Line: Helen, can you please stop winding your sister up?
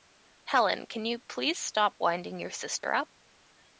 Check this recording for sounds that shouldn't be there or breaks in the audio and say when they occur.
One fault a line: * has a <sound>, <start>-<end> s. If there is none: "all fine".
* has a dropout, 2.8-2.8 s